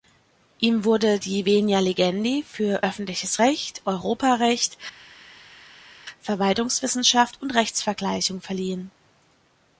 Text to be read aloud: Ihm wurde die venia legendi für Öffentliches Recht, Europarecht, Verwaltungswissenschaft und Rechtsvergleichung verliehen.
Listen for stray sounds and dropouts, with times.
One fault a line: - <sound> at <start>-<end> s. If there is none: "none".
none